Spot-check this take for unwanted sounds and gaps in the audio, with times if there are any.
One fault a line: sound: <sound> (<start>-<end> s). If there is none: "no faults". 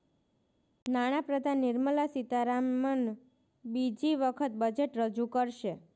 no faults